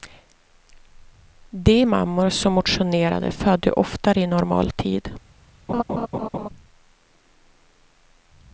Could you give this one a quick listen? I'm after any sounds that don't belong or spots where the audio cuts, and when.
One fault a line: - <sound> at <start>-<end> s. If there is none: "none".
- laugh at 5.7-6.5 s